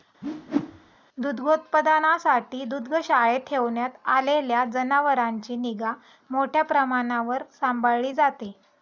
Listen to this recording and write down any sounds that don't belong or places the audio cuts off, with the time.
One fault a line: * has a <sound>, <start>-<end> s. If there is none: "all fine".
* has a whoosh, 0.2-1.0 s